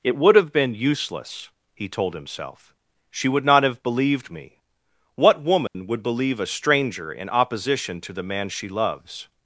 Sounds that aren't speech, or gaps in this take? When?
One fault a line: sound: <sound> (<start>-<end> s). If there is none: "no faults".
sound: dropout (5.7-5.7 s)